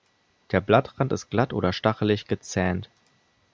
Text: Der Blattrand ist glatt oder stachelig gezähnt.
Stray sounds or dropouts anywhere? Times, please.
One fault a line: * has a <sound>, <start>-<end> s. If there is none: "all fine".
all fine